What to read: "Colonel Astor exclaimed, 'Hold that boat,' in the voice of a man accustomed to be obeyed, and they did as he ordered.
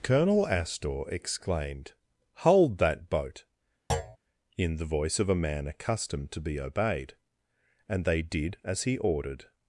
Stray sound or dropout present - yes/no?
yes